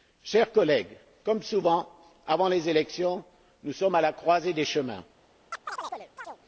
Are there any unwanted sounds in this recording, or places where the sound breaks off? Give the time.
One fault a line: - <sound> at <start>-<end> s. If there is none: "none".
- chirp at 5.5-6.4 s